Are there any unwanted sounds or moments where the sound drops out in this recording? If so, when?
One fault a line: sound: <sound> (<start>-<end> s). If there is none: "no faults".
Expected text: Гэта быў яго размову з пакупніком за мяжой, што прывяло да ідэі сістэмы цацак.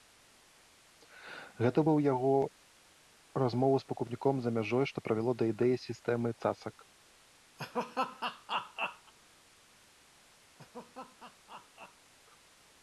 sound: laugh (7.6-9.1 s)
sound: laugh (10.6-12.1 s)